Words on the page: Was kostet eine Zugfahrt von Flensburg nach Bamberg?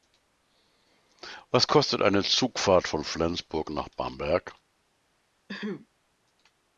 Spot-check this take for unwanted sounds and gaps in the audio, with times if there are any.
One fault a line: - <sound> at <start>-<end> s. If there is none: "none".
- throat clearing at 5.5-5.9 s